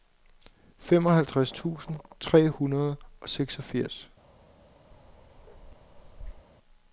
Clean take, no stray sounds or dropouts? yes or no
no